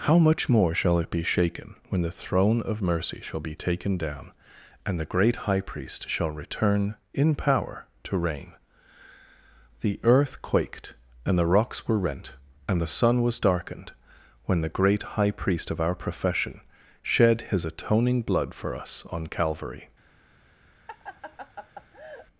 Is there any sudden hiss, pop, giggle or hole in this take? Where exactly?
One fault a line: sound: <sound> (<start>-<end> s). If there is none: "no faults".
sound: laugh (20.9-22.3 s)